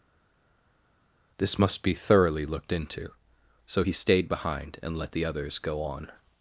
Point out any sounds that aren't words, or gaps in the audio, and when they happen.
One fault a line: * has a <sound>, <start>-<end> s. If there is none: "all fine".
all fine